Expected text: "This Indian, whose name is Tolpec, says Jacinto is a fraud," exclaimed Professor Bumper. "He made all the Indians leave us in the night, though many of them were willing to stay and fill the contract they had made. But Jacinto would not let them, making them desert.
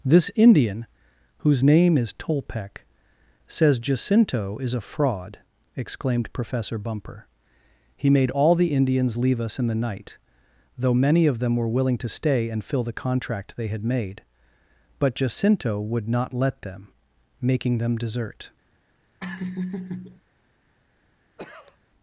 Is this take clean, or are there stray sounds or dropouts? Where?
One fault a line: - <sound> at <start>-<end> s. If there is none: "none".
- laugh at 19.2-20.2 s
- cough at 21.4-21.8 s